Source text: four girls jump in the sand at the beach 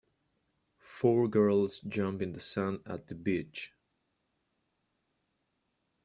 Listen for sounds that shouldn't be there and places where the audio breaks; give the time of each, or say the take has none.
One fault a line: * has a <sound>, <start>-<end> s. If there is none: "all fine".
all fine